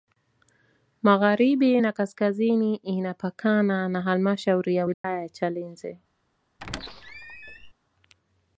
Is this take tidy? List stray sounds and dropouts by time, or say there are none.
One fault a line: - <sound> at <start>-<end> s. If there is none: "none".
- dropout at 4.9-5.0 s
- squeak at 6.6-7.7 s